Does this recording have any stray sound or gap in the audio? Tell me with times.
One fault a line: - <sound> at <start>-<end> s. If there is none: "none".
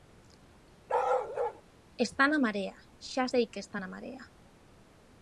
- bark at 0.9-1.6 s